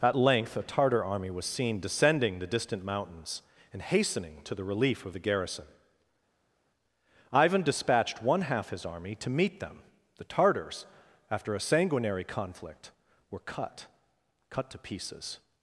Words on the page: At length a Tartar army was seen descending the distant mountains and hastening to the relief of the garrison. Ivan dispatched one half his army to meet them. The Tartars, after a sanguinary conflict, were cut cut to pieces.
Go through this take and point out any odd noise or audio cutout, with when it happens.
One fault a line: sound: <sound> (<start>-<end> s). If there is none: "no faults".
no faults